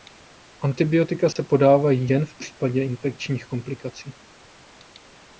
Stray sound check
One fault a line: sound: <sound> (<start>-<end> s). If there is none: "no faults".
sound: dropout (1.3-1.4 s)